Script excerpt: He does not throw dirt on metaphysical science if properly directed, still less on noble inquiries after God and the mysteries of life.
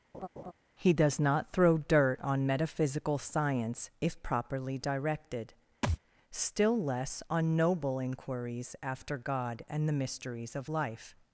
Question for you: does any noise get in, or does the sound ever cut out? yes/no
yes